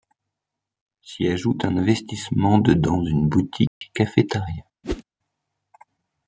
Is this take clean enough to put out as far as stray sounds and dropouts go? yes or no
no